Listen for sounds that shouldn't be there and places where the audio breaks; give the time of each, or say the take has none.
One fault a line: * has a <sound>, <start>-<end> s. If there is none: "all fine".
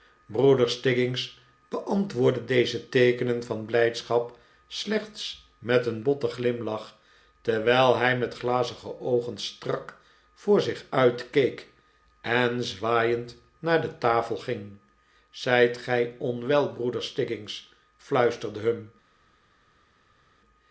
all fine